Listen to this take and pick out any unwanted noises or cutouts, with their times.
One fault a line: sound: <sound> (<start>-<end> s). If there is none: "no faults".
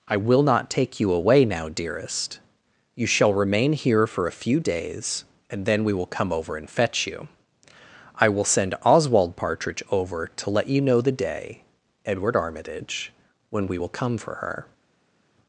no faults